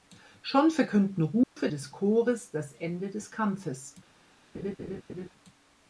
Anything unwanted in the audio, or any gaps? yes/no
yes